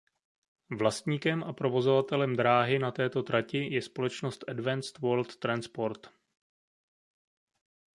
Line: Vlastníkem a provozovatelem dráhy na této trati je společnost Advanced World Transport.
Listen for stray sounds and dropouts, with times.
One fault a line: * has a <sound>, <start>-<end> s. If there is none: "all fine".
all fine